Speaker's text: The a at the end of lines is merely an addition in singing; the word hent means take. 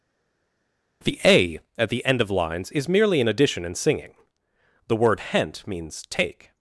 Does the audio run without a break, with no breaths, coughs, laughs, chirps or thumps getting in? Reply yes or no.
yes